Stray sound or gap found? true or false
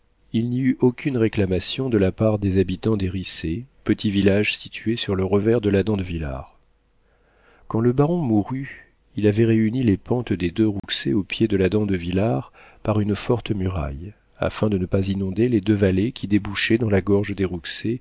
true